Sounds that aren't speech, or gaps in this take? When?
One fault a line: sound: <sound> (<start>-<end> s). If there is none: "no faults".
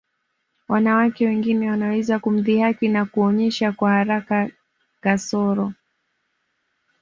no faults